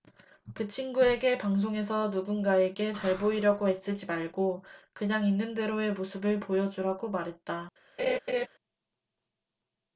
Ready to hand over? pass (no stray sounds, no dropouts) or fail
fail